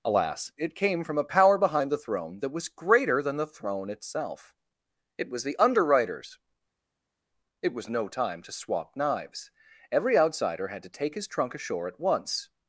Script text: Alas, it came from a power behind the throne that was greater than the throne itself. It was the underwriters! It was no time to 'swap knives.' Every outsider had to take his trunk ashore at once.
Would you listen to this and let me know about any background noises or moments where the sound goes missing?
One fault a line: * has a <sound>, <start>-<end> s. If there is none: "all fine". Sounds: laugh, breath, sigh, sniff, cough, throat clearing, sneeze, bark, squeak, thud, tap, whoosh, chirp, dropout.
all fine